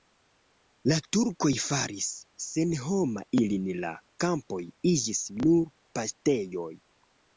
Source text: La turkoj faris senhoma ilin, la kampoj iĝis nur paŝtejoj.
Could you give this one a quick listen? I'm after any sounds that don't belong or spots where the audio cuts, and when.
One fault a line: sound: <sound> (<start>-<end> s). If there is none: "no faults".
no faults